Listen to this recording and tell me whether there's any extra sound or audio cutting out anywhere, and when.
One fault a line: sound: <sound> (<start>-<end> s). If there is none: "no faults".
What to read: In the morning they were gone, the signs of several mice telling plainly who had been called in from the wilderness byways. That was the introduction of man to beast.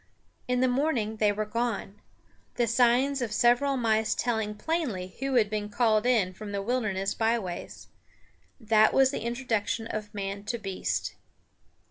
no faults